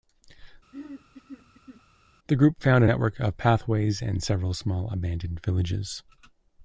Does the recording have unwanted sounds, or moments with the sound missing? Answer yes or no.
yes